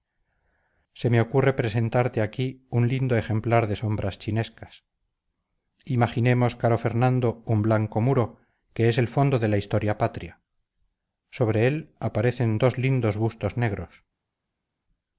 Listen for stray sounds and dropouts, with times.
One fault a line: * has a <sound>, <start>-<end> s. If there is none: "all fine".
all fine